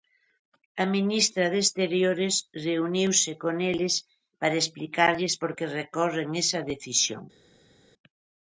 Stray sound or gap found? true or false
false